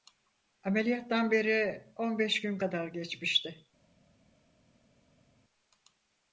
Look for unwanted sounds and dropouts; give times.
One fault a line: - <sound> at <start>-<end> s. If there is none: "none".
none